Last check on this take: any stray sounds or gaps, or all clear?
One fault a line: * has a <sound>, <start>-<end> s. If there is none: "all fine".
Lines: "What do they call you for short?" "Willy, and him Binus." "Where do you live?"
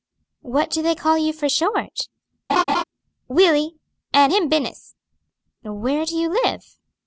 * has a laugh, 2.5-2.8 s